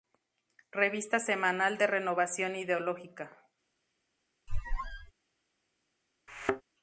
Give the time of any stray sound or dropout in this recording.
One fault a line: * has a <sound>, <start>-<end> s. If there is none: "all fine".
* has a squeak, 4.5-5.1 s
* has a thud, 6.3-6.6 s